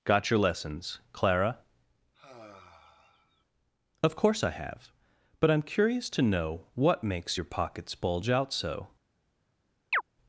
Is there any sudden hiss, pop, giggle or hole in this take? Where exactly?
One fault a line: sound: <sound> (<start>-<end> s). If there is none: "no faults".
sound: sigh (2.1-3.5 s)
sound: chirp (9.9-10.0 s)